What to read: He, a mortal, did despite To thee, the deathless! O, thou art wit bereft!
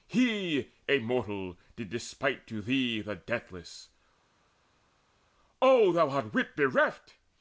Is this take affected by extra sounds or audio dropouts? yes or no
no